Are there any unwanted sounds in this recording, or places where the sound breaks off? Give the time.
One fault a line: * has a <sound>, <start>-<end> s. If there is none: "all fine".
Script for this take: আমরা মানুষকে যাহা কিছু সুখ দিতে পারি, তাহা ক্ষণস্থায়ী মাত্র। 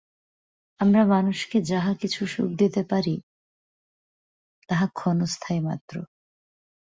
all fine